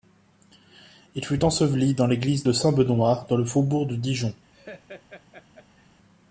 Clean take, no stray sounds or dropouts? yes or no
no